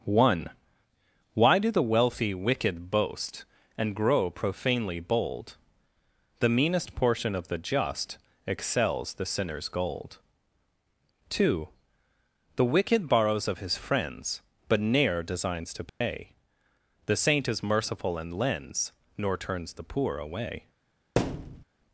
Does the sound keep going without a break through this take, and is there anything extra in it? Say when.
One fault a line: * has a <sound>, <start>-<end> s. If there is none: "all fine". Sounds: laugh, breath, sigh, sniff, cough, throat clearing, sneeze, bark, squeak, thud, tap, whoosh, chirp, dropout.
* has a dropout, 15.9-16.0 s
* has a thud, 21.2-21.6 s